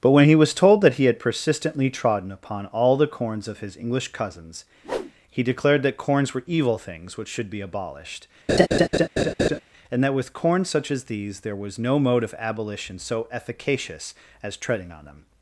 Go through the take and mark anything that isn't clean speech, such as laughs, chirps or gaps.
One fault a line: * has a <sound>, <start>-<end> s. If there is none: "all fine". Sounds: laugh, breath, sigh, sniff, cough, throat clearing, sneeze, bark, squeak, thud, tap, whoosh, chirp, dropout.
* has a whoosh, 4.8-5.1 s
* has a laugh, 8.5-9.6 s